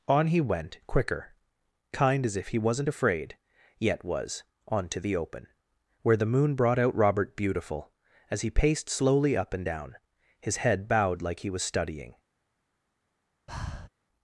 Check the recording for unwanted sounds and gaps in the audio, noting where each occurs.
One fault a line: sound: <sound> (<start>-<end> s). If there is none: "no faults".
sound: breath (13.5-13.9 s)